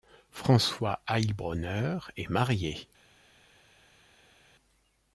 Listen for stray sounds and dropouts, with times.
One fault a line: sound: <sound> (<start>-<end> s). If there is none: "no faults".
no faults